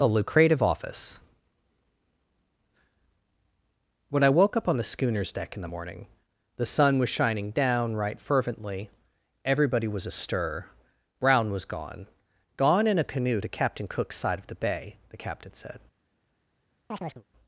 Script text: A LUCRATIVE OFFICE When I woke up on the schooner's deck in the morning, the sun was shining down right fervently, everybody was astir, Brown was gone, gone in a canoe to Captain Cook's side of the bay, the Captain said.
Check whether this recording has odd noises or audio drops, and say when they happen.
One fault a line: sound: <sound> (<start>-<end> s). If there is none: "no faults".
sound: chirp (16.9-17.2 s)